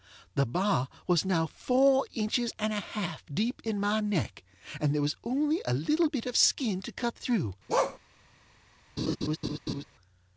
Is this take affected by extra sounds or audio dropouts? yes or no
yes